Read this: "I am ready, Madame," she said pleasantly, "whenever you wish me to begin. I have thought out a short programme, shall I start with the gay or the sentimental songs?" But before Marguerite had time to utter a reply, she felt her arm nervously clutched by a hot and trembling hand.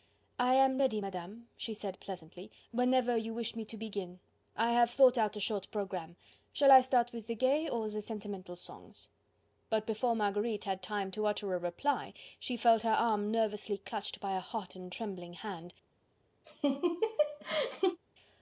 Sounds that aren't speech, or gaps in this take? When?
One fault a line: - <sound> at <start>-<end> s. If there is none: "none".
- laugh at 16.4-18.0 s